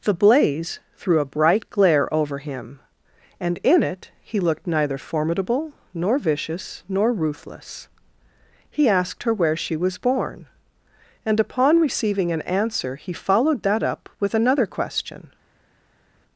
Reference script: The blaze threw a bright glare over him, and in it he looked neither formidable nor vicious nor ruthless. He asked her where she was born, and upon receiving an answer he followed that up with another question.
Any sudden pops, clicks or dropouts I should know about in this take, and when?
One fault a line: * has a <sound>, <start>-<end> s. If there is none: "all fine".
all fine